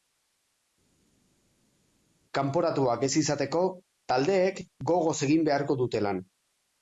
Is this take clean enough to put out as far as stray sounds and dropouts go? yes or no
yes